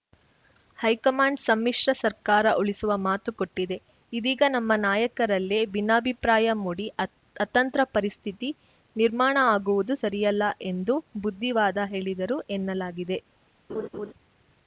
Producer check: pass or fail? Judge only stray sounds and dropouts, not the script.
fail